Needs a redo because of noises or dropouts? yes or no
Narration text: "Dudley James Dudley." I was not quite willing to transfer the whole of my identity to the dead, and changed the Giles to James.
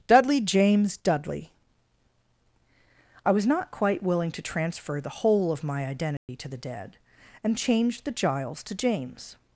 yes